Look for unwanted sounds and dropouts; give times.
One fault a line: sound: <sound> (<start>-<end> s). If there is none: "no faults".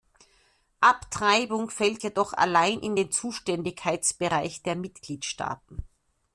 no faults